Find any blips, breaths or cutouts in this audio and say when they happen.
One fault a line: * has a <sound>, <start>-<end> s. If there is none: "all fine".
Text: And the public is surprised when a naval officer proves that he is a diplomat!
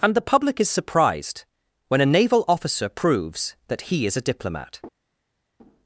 all fine